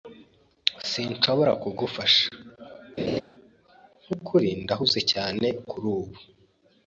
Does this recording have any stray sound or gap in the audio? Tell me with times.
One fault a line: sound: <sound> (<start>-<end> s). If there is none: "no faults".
sound: laugh (3.0-3.2 s)